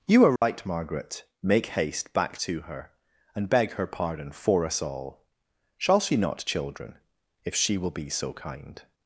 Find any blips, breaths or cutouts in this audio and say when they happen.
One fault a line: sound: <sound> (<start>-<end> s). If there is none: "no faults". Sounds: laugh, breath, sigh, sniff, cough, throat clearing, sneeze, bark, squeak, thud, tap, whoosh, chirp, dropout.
sound: dropout (0.4-0.4 s)